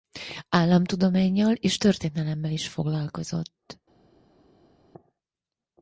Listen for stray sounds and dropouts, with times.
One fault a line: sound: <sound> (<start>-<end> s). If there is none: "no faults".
no faults